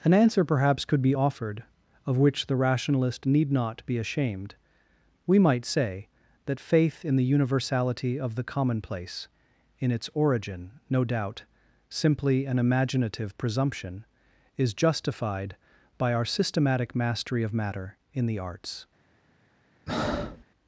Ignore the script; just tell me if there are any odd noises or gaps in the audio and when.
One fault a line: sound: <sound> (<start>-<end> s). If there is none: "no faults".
sound: breath (19.9-20.4 s)